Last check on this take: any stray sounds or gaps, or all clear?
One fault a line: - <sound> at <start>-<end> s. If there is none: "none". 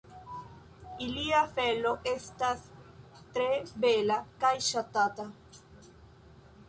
none